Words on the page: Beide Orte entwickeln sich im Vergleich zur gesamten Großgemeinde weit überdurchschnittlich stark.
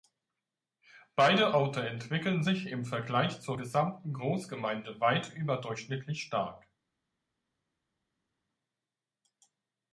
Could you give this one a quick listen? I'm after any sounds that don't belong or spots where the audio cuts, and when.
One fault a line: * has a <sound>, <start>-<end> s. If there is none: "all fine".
all fine